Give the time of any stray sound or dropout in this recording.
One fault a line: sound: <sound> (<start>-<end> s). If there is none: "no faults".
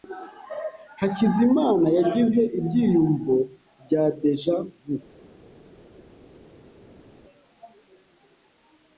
no faults